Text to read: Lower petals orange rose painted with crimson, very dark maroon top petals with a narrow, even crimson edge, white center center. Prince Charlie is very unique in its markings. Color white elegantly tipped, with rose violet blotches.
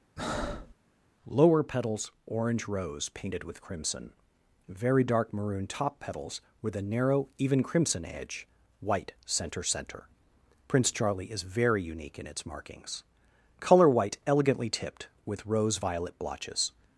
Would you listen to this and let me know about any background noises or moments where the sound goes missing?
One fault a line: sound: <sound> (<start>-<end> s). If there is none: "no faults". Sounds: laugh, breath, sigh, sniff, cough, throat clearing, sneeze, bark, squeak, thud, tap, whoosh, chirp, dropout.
sound: breath (0.2-0.7 s)